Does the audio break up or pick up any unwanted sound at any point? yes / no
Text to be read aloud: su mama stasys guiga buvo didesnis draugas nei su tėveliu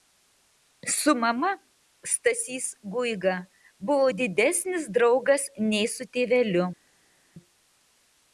no